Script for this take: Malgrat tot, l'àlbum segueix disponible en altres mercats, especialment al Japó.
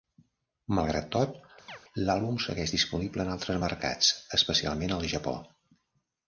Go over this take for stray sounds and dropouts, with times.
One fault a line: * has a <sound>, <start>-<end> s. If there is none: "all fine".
* has a chirp, 1.7-1.8 s